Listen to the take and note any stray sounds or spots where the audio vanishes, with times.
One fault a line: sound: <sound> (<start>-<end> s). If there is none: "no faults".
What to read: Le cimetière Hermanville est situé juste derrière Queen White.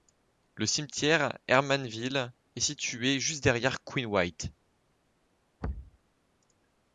sound: thud (5.6-6.0 s)